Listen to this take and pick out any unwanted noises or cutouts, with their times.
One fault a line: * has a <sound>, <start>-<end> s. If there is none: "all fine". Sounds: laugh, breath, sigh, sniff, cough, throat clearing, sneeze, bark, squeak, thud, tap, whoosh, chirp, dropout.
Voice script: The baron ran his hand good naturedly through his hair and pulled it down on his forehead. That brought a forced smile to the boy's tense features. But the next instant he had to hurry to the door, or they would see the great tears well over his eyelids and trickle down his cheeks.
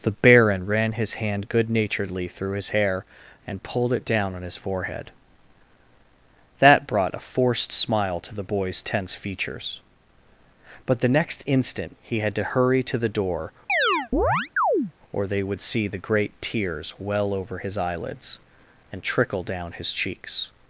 * has a chirp, 13.7-14.9 s